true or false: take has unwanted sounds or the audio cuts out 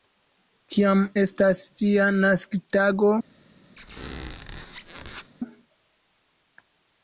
true